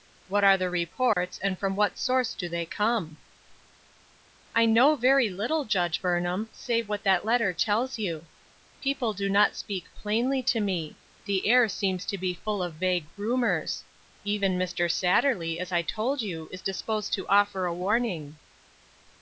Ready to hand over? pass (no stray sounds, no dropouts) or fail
fail